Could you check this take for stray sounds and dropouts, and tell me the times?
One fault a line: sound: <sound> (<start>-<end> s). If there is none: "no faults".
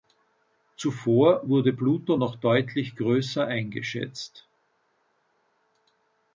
no faults